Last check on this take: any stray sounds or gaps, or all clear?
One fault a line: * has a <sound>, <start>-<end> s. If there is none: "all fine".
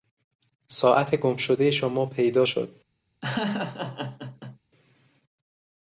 * has a laugh, 3.2-4.6 s